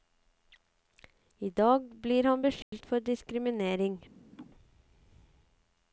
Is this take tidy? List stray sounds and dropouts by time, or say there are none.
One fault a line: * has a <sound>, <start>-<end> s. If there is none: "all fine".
* has a dropout, 2.6-2.7 s
* has a laugh, 4.3-4.5 s